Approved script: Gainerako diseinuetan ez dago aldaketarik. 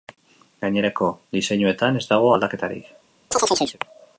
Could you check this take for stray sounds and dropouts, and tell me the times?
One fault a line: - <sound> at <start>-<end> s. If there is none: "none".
- chirp at 3.3-3.8 s